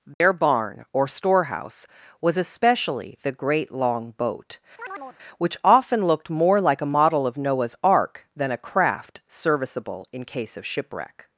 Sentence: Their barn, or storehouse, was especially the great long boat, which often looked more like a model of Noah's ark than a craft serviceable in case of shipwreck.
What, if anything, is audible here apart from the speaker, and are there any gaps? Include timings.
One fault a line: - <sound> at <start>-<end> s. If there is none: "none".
- dropout at 0.1-0.2 s
- chirp at 4.8-5.2 s